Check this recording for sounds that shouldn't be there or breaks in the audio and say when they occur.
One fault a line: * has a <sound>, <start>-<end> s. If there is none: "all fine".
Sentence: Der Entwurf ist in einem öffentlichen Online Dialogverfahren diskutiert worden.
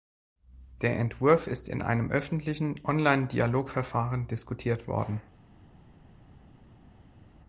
all fine